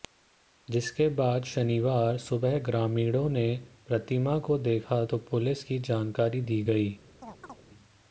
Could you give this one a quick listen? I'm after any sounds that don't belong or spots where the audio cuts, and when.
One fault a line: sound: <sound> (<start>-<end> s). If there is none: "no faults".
sound: chirp (7.2-7.6 s)